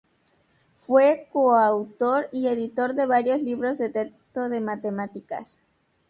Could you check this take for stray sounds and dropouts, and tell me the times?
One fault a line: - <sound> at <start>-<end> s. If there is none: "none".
none